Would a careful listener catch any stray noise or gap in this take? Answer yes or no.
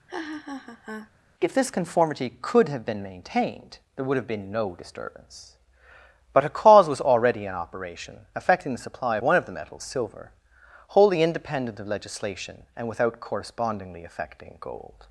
yes